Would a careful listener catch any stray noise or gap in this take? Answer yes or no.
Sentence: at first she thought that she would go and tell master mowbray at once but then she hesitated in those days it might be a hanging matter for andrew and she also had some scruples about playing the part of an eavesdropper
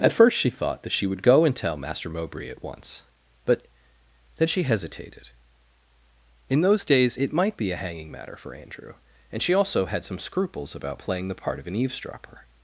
no